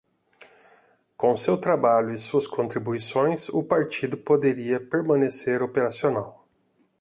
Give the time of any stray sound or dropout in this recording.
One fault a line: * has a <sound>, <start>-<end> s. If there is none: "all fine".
all fine